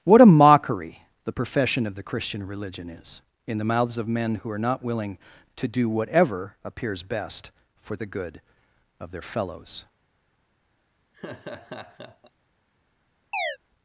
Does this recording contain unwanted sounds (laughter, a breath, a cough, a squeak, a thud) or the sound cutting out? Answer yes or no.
yes